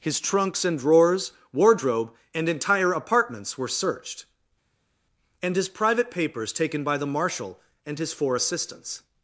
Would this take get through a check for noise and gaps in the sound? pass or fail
pass